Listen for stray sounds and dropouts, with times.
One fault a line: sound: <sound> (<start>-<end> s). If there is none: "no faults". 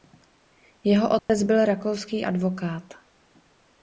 sound: dropout (1.2-1.3 s)